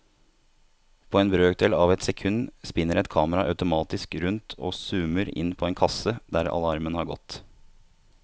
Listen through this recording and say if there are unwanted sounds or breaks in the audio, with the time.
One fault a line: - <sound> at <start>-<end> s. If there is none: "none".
none